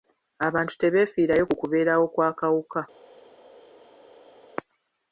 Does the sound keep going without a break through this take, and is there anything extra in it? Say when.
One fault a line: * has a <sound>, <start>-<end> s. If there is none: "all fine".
all fine